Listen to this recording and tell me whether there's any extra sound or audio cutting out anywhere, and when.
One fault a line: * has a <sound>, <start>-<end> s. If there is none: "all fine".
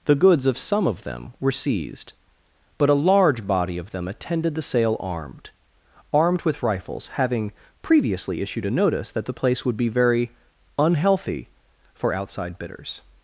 all fine